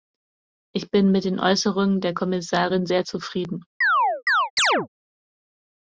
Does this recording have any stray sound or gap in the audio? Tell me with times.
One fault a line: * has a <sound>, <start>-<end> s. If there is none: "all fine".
* has a chirp, 3.8-4.9 s